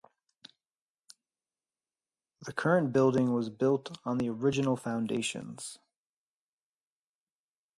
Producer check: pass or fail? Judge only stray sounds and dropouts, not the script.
pass